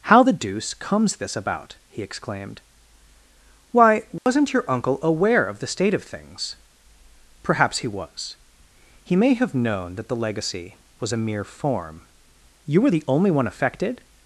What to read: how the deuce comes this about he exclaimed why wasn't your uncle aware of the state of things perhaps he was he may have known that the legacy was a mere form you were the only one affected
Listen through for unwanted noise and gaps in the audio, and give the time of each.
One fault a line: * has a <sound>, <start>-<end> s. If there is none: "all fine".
* has a dropout, 4.2-4.3 s